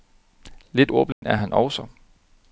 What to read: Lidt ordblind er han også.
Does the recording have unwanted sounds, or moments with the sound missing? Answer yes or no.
yes